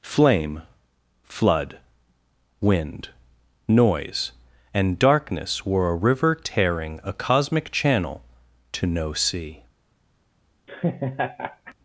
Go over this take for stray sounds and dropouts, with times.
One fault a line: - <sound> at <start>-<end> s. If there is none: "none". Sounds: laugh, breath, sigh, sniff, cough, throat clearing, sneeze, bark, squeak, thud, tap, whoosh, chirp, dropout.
- laugh at 10.7-11.7 s